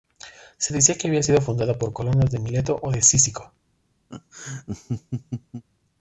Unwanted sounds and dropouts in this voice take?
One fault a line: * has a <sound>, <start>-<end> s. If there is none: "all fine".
* has a laugh, 4.1-5.6 s